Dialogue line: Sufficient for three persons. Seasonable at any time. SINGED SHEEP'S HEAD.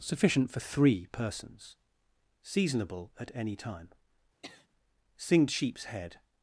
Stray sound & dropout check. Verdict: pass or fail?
fail